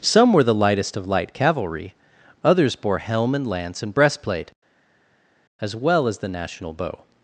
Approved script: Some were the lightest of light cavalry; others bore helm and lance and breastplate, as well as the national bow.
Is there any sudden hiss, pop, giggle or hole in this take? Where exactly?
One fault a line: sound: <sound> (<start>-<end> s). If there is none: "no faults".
no faults